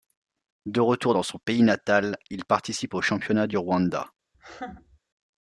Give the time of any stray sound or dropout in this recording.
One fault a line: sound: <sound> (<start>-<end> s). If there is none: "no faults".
sound: laugh (4.3-5.0 s)